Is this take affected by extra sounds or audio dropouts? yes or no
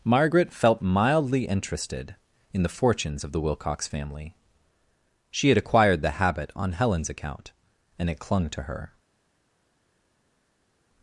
no